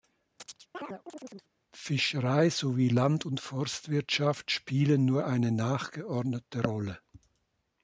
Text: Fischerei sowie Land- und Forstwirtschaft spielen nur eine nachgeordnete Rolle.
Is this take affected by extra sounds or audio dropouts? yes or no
yes